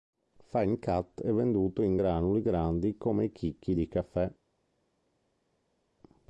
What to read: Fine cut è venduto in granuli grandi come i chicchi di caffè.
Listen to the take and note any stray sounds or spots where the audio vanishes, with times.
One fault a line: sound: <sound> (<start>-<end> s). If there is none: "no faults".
no faults